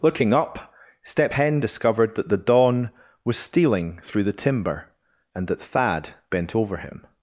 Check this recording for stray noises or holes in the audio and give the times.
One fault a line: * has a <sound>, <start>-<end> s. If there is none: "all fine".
all fine